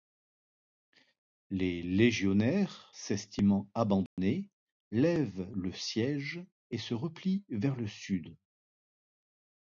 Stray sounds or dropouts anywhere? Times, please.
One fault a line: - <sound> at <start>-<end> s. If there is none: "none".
- dropout at 4.1-4.2 s